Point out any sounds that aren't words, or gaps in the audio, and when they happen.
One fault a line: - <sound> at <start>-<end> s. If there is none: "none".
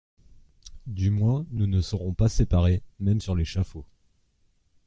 none